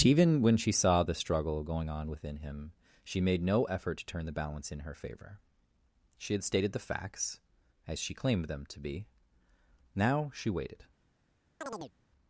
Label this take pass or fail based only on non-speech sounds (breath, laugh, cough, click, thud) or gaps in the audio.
fail